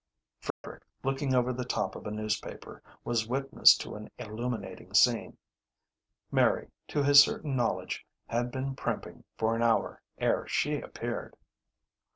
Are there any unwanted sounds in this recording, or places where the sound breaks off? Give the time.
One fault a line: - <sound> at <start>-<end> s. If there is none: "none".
- dropout at 0.5-0.6 s